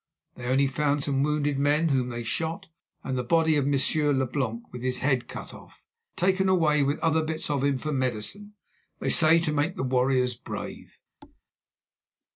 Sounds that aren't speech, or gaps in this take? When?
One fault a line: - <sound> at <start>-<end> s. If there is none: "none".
- thud at 11.2-11.4 s